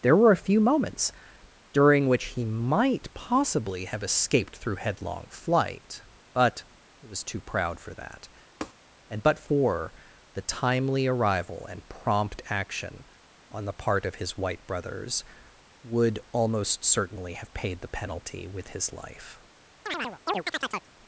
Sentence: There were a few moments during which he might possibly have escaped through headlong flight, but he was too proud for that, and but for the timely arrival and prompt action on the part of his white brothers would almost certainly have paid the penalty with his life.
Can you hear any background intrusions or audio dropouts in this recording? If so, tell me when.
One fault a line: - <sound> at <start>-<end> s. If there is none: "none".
- tap at 8.6-8.7 s
- chirp at 19.9-20.9 s